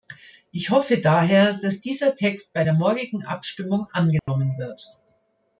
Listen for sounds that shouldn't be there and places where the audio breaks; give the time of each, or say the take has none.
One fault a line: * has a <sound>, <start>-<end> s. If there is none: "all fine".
* has a dropout, 4.2-4.3 s